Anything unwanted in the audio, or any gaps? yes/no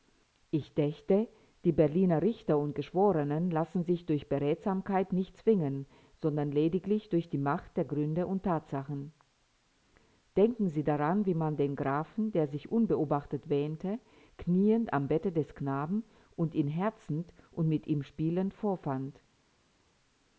no